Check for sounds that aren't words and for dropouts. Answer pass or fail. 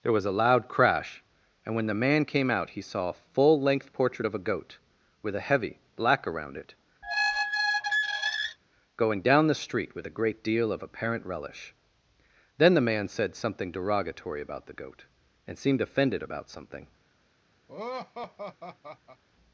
fail